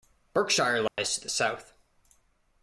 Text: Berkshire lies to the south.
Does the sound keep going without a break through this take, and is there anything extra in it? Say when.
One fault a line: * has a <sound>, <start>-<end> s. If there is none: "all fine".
* has a dropout, 0.9-1.0 s